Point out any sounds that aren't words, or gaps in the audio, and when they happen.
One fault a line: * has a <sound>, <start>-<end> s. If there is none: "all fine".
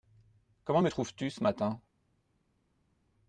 all fine